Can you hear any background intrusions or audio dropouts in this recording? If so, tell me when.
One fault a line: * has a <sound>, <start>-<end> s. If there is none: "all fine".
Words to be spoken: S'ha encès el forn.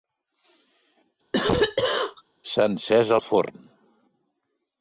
* has a cough, 1.3-2.2 s